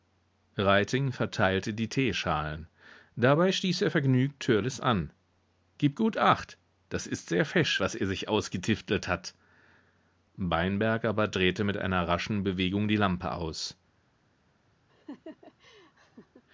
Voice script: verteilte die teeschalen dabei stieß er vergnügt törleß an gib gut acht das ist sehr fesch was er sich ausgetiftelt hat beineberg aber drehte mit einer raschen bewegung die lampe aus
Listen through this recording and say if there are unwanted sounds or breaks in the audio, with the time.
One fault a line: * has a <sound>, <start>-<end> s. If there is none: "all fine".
* has a laugh, 14.9-16.4 s